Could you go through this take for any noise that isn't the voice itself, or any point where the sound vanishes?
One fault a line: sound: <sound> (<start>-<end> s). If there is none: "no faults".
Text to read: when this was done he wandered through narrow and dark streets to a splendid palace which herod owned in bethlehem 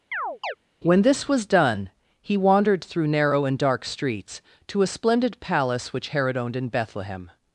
sound: chirp (0.1-0.5 s)